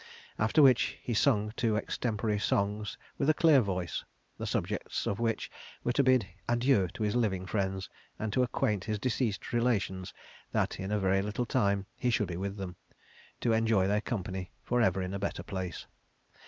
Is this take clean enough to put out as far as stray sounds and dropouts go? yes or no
yes